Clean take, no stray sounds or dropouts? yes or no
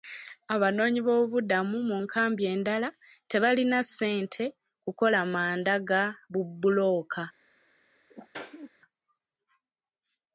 no